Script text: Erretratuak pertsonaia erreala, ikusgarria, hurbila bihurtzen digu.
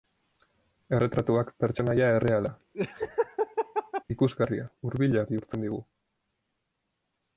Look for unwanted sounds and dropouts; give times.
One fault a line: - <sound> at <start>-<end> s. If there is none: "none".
- laugh at 2.7-4.0 s